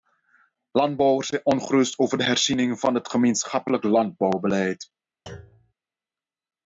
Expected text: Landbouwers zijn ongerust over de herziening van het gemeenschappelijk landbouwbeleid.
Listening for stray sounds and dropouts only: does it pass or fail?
fail